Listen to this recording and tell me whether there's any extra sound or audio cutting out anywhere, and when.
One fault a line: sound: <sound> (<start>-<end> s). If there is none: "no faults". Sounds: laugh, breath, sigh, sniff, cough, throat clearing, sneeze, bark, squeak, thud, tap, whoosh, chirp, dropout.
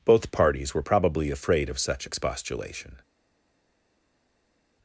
no faults